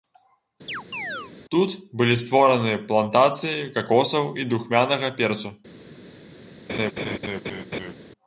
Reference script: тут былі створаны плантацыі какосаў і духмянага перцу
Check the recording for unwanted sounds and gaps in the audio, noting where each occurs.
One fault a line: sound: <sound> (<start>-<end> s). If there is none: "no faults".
sound: chirp (0.7-1.3 s)
sound: laugh (6.7-7.9 s)